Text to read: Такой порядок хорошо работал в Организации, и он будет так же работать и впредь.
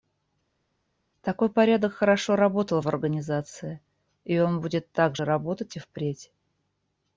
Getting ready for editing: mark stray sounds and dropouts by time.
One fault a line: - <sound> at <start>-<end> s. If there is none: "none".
none